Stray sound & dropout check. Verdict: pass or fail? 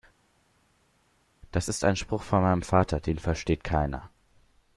pass